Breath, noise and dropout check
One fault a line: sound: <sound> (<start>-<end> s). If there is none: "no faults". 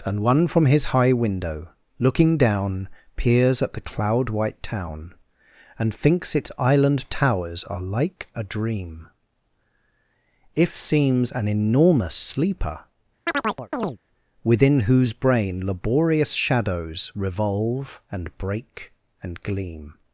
sound: chirp (13.3-14.0 s)